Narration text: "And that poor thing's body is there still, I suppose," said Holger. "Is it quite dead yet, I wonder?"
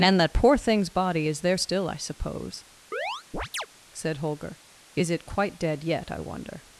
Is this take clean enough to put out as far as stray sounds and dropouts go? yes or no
no